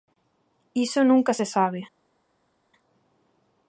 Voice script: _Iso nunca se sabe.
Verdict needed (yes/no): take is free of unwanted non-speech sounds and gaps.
yes